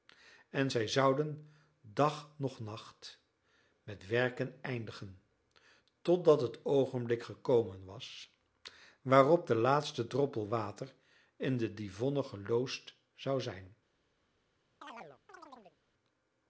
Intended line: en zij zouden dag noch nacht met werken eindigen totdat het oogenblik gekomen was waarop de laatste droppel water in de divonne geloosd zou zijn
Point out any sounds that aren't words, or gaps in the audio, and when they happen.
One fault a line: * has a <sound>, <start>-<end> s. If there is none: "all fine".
* has a chirp, 14.8-15.8 s